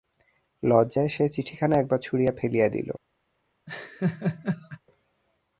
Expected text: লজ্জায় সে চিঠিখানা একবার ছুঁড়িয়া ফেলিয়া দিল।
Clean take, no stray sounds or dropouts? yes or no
no